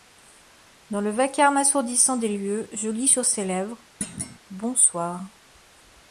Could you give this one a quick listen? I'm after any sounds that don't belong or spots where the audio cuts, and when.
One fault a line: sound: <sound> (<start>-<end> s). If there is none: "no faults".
sound: thud (4.0-4.4 s)